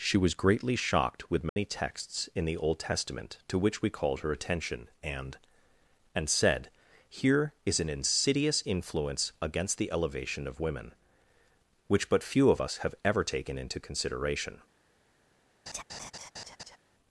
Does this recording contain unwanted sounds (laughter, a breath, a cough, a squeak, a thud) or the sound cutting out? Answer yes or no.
yes